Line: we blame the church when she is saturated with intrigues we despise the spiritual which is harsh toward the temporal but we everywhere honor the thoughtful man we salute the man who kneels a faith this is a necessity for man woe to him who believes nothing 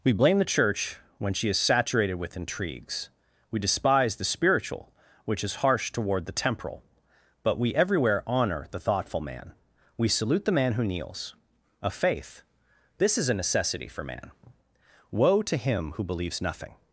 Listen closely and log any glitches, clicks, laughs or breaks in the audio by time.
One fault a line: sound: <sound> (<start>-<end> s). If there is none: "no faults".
no faults